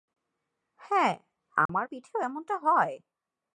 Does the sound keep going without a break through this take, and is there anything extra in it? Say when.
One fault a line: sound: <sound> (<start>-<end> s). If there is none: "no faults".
sound: dropout (1.7-1.7 s)